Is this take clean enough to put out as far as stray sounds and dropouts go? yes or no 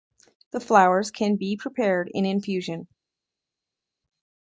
yes